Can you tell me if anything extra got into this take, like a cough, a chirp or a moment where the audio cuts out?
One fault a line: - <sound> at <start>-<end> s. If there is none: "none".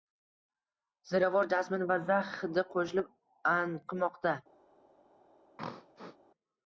- throat clearing at 5.6-6.2 s